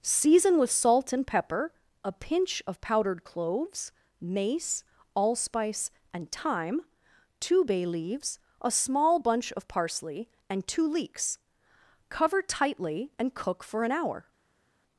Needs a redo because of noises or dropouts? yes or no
no